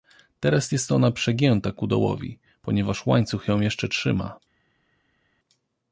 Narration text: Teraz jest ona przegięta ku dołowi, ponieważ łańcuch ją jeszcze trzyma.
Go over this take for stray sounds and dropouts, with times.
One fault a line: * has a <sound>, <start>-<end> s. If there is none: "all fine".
all fine